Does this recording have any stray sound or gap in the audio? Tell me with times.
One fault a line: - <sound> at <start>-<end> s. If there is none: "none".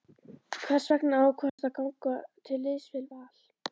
- dropout at 1.5-1.6 s